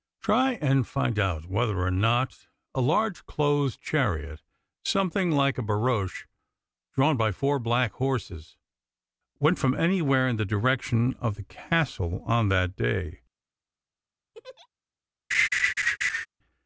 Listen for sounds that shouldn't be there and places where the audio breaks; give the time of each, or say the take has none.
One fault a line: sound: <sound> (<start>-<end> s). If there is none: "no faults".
sound: laugh (14.3-14.7 s)
sound: laugh (15.3-16.3 s)